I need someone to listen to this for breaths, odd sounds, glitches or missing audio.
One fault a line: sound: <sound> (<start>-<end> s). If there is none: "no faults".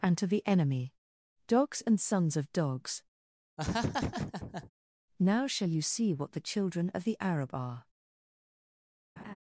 sound: laugh (3.6-4.7 s)
sound: laugh (9.2-9.4 s)